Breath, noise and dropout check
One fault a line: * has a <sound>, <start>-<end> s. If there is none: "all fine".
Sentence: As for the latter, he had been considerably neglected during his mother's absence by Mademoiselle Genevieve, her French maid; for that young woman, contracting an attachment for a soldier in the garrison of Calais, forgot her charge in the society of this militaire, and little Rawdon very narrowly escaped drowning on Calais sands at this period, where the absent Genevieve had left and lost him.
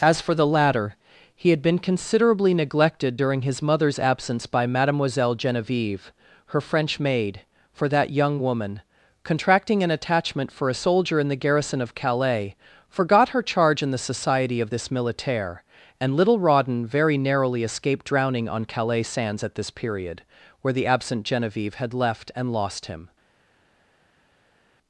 all fine